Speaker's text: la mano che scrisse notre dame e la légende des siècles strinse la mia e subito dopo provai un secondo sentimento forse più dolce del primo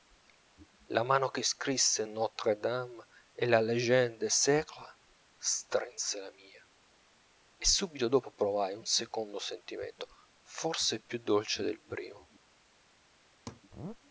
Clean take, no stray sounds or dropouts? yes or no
no